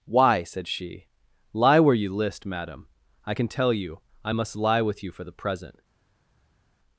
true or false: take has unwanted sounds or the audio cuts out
false